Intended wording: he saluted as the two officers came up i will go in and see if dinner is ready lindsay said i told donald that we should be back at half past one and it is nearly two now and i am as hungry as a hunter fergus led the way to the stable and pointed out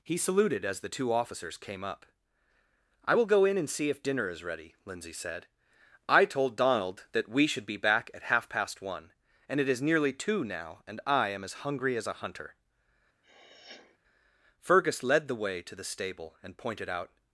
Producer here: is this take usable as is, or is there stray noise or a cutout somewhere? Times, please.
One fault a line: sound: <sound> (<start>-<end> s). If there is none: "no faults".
sound: sniff (13.2-14.0 s)